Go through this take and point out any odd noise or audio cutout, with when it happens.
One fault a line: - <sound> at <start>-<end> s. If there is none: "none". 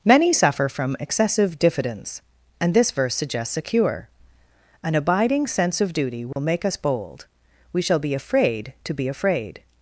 - dropout at 6.3-6.4 s